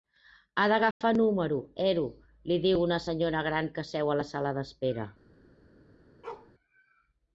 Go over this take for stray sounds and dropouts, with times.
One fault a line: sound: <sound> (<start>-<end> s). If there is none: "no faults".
sound: dropout (0.9-1.0 s)
sound: bark (6.2-6.5 s)